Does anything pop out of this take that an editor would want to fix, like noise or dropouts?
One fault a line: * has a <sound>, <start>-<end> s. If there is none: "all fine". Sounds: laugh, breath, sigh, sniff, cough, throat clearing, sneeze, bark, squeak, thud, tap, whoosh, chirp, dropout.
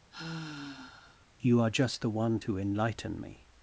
* has a sigh, 0.1-1.3 s